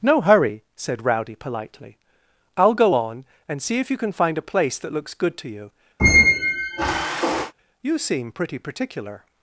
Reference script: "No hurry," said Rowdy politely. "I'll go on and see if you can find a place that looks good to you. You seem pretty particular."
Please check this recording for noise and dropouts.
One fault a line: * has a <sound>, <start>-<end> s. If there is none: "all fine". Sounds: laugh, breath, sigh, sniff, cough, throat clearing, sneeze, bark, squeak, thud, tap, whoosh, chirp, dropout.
* has a squeak, 6.0-7.5 s